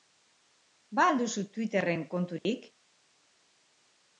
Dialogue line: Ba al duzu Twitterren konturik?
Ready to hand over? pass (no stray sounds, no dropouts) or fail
fail